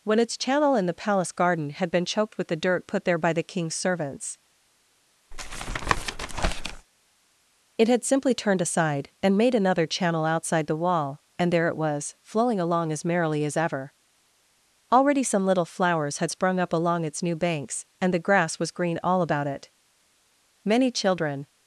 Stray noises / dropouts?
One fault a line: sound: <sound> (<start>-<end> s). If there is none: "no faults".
sound: tap (5.3-6.9 s)